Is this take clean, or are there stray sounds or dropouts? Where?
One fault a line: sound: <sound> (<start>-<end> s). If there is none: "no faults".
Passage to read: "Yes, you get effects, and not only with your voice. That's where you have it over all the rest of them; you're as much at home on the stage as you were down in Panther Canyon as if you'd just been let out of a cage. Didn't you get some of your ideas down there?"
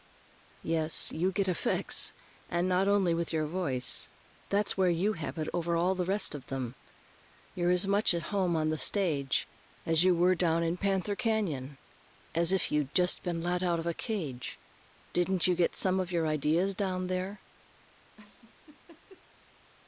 sound: laugh (18.2-19.2 s)